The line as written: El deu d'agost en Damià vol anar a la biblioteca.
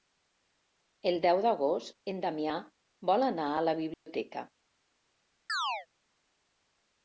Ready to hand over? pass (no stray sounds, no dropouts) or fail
fail